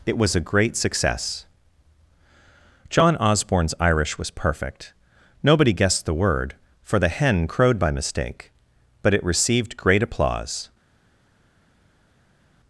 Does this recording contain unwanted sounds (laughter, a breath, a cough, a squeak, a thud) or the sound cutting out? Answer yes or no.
no